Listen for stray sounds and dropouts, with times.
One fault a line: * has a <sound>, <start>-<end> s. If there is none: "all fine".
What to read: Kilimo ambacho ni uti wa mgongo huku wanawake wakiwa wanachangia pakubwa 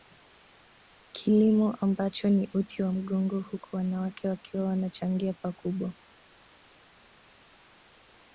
all fine